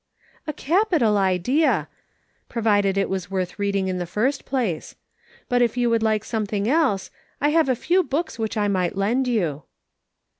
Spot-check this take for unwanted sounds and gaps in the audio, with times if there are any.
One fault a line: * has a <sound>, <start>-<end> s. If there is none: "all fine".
all fine